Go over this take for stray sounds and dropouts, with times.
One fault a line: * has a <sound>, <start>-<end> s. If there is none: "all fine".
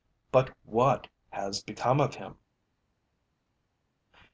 all fine